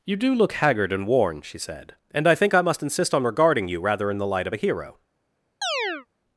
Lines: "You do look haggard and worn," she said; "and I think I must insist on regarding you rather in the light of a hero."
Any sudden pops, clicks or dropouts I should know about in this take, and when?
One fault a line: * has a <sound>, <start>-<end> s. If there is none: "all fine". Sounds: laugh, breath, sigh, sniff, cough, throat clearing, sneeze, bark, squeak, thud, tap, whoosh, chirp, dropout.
* has a chirp, 5.6-6.1 s